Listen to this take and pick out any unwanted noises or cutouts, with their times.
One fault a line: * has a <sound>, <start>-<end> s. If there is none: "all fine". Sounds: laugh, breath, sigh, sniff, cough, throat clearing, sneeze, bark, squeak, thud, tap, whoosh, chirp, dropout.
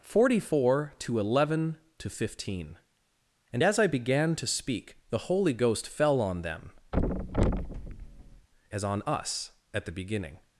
* has a thud, 6.9-8.5 s